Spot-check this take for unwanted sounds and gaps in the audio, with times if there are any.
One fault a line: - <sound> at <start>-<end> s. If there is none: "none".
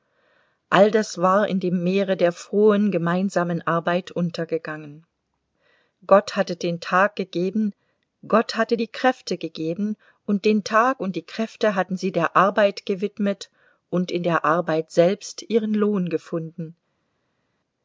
none